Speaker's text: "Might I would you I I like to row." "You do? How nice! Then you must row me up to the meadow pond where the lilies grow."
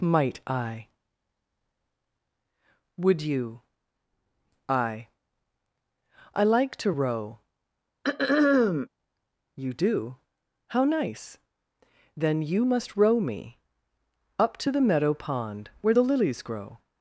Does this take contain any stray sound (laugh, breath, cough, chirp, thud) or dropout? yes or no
yes